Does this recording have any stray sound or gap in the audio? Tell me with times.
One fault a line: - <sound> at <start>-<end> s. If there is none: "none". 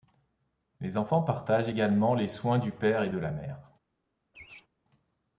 - laugh at 4.3-4.7 s